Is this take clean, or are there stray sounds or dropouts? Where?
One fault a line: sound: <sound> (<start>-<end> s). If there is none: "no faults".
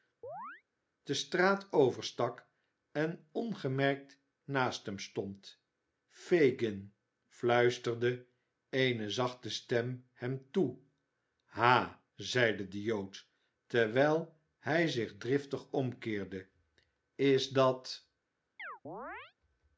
sound: chirp (0.2-0.6 s)
sound: chirp (18.6-19.3 s)